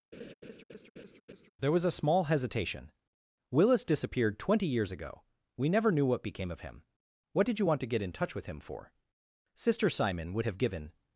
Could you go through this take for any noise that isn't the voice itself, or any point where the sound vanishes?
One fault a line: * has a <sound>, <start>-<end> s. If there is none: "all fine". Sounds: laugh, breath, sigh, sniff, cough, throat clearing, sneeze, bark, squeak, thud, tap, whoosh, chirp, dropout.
* has a laugh, 0.1-1.5 s